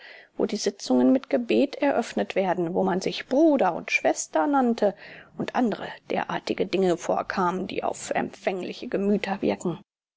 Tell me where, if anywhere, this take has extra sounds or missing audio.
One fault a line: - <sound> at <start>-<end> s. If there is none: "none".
none